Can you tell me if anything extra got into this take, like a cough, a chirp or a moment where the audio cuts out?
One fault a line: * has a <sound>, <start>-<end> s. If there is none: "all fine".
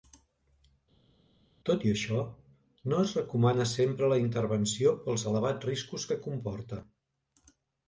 all fine